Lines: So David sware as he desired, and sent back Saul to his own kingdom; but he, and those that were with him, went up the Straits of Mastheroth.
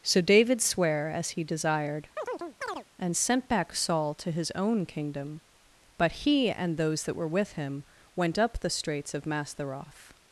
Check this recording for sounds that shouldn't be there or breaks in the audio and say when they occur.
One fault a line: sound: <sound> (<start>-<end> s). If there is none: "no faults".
sound: chirp (2.2-2.8 s)